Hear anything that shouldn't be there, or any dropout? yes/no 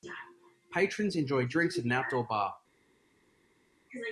no